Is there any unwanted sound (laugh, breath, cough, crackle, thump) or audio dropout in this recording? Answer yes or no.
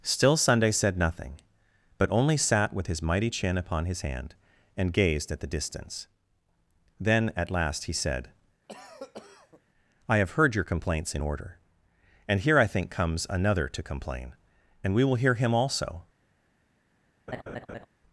yes